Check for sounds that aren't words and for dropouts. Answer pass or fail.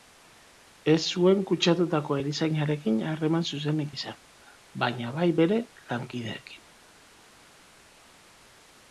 pass